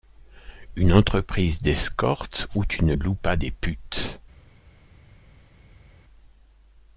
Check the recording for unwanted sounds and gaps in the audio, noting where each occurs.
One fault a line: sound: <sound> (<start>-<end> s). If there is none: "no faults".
no faults